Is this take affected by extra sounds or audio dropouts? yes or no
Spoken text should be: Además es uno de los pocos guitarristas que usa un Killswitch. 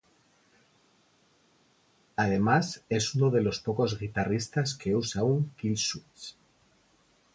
no